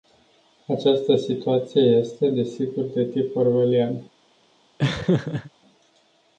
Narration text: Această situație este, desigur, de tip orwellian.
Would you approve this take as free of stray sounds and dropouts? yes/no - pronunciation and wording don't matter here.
no